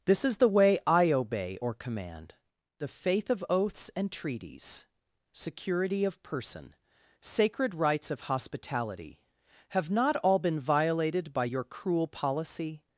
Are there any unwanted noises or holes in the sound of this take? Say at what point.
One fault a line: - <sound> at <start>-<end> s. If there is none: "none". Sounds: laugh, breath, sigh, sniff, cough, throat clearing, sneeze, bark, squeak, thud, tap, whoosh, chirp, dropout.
none